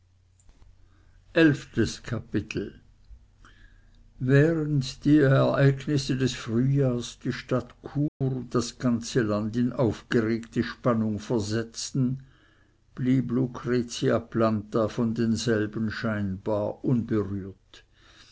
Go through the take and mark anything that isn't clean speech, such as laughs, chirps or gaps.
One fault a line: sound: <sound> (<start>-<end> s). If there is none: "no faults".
sound: dropout (8.1-8.2 s)